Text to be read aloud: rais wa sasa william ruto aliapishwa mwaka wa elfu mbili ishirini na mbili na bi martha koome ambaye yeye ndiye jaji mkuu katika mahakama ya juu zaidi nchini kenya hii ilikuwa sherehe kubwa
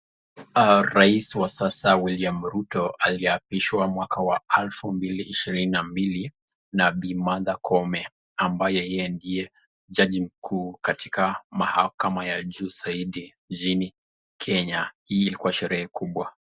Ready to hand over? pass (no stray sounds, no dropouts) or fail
pass